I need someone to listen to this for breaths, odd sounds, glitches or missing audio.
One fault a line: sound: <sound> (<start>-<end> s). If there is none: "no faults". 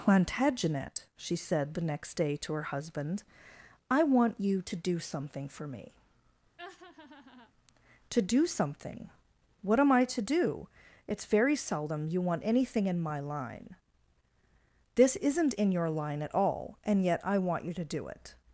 sound: laugh (6.6-7.5 s)